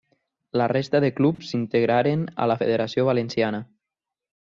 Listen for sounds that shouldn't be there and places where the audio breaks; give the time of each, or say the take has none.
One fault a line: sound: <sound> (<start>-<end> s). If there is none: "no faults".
sound: dropout (1.3-1.4 s)